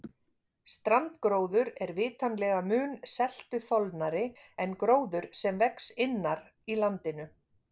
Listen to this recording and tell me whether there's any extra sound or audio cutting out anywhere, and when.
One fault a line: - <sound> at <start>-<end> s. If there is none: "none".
none